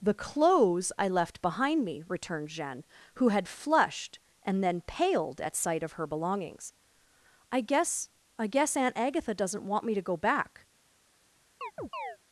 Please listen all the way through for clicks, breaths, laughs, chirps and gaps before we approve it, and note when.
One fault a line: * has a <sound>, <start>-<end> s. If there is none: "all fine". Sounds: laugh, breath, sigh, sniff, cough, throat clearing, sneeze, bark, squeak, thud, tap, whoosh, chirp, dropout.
* has a chirp, 11.6-12.2 s